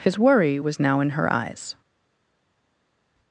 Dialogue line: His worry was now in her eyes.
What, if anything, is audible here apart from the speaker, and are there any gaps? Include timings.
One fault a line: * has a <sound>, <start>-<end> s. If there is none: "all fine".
all fine